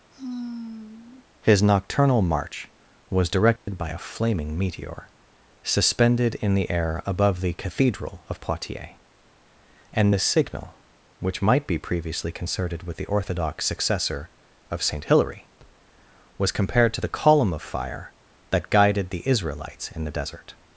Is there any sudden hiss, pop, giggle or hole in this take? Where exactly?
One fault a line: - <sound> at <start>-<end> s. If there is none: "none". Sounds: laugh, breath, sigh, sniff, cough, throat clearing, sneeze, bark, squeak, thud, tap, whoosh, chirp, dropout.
- sigh at 0.1-1.3 s
- dropout at 3.6-3.7 s